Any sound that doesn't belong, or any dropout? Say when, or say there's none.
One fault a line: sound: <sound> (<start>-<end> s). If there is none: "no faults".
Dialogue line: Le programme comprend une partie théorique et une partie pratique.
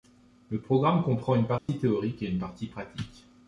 sound: dropout (1.6-1.7 s)